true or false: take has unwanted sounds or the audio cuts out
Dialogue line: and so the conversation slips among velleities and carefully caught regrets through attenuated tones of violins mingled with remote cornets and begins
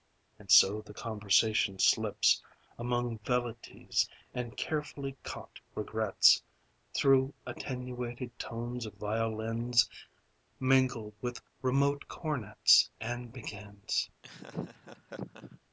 true